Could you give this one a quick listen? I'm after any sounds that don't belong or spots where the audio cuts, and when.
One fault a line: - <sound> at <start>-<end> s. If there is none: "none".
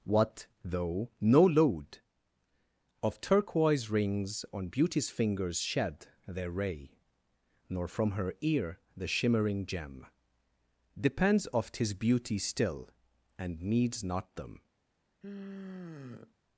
- sigh at 15.2-16.4 s